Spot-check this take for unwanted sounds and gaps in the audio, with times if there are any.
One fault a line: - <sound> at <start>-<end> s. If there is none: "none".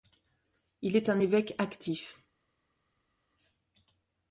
none